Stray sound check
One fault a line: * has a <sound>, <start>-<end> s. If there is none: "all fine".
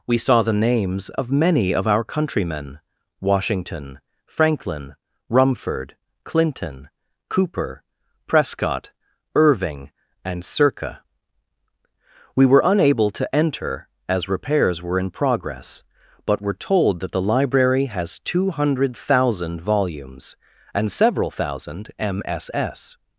all fine